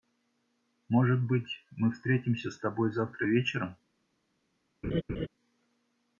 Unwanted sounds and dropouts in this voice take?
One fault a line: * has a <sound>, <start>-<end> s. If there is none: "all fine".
* has a laugh, 4.8-5.3 s